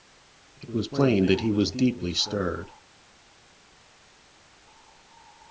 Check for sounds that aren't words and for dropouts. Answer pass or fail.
pass